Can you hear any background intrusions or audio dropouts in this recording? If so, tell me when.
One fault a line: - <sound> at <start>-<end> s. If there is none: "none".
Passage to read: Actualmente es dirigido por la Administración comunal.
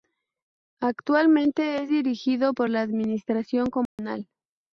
- dropout at 3.9-4.0 s